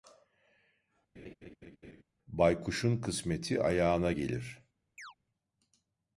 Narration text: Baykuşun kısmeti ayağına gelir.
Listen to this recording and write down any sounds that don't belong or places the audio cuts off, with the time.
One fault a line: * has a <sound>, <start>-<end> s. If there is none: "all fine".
* has a laugh, 1.2-2.0 s
* has a chirp, 5.0-5.1 s